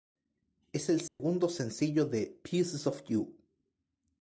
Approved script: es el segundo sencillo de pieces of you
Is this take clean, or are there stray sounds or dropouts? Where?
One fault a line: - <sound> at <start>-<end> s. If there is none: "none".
- dropout at 1.1-1.2 s